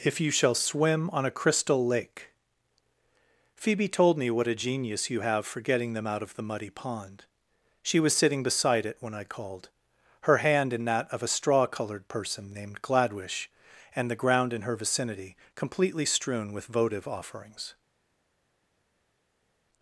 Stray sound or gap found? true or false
false